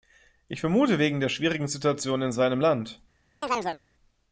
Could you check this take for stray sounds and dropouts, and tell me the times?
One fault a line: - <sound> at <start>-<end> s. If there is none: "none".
- chirp at 3.4-3.8 s